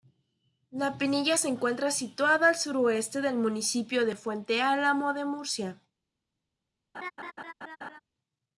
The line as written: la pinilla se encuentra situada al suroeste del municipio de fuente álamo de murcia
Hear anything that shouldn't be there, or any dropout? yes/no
yes